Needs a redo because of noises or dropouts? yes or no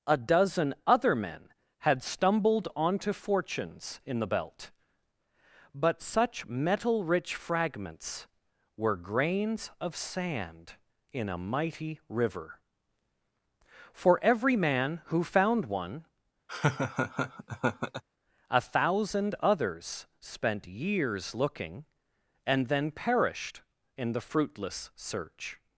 yes